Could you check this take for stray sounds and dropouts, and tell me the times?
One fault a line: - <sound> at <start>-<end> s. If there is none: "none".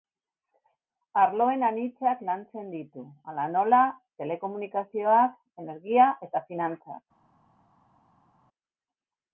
none